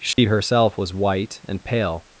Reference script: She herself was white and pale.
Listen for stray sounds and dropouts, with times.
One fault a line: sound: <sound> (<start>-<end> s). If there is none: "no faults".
sound: dropout (0.1-0.2 s)